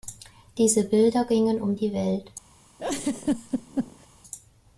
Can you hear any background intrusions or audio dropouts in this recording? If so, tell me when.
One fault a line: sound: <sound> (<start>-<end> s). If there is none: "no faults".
sound: laugh (2.8-4.1 s)